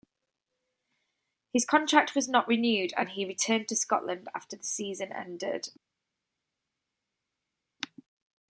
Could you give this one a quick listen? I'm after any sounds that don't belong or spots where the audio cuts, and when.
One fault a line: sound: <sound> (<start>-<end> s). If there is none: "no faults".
no faults